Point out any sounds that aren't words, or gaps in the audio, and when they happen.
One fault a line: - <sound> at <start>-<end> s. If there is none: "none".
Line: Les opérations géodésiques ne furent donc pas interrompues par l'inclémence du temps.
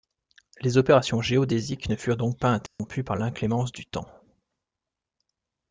- dropout at 2.7-2.8 s